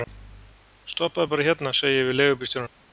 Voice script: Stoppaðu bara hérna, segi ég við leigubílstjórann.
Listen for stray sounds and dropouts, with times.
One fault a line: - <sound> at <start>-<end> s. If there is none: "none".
none